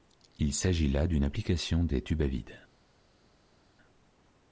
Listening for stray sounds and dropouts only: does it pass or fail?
pass